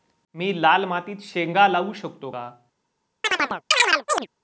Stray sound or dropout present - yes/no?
yes